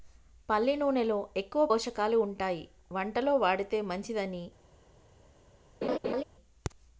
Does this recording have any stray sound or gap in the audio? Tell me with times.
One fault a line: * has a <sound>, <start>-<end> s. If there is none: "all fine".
* has a laugh, 5.8-6.2 s